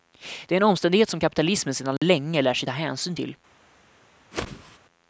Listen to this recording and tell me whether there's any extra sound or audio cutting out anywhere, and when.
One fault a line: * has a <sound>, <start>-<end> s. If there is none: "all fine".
* has a dropout, 2.0-2.0 s
* has a whoosh, 4.3-4.8 s